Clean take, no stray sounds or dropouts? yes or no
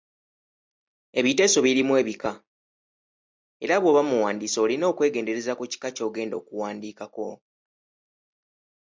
yes